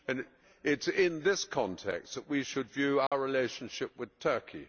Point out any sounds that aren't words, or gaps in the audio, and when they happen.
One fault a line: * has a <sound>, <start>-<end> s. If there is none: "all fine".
* has a dropout, 3.1-3.1 s